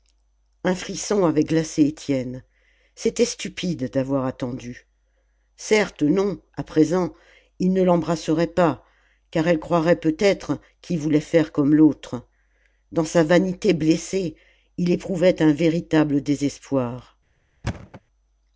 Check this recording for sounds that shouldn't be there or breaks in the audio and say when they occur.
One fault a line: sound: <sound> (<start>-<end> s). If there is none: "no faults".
sound: thud (17.6-18.0 s)